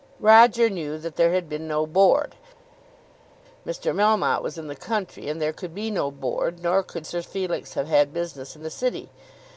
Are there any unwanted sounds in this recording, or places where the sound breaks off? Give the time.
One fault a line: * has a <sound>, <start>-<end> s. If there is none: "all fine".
all fine